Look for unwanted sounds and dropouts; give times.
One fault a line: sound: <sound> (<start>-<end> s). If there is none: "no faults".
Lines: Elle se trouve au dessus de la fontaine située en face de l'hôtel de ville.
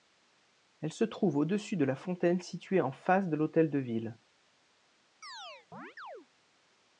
sound: chirp (5.2-6.3 s)